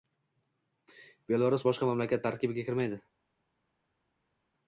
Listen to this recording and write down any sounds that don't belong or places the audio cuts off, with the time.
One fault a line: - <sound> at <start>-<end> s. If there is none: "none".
none